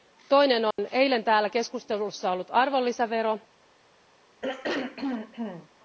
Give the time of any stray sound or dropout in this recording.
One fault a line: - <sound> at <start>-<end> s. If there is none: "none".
- dropout at 0.7-0.8 s
- throat clearing at 4.4-5.7 s